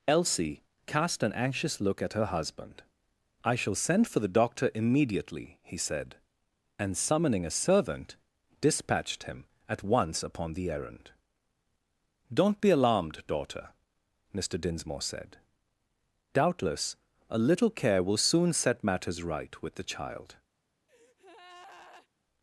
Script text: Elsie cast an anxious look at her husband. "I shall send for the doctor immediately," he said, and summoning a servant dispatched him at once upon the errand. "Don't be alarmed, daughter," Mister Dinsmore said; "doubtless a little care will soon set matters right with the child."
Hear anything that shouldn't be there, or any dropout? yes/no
yes